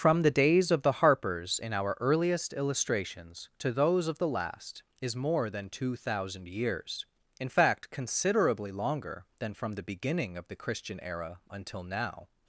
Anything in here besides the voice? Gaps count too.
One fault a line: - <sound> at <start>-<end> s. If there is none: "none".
none